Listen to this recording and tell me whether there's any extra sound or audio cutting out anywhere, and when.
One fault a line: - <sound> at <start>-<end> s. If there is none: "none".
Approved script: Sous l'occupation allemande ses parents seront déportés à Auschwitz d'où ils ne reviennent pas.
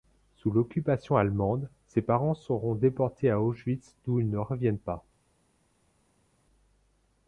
none